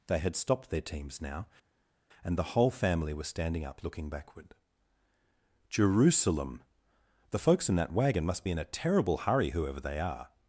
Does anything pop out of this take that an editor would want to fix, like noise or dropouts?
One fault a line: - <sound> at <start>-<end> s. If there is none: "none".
none